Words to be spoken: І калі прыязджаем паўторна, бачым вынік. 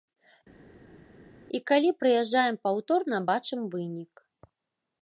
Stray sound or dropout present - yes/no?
no